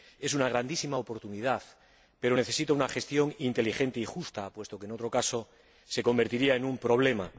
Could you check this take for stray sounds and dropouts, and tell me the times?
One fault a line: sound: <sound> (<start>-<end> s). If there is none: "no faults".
no faults